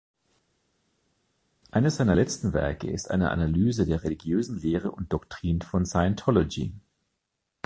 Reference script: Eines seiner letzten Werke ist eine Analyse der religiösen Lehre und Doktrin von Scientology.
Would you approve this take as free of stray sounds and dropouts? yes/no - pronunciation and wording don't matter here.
yes